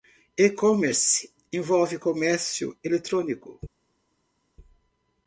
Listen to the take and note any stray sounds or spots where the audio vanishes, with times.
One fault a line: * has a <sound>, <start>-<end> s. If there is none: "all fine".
all fine